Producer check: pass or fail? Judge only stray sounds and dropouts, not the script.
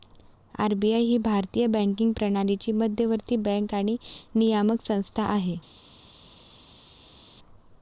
pass